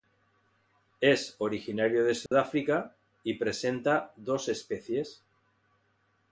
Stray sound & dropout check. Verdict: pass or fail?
fail